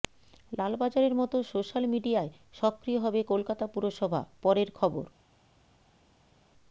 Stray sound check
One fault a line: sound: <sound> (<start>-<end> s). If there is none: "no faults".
no faults